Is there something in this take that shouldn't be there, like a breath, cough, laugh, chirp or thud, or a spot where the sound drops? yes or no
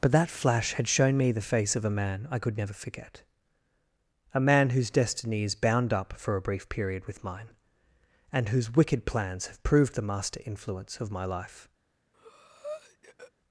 yes